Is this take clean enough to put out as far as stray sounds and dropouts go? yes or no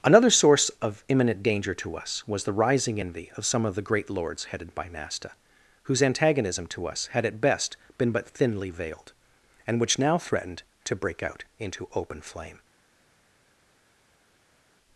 yes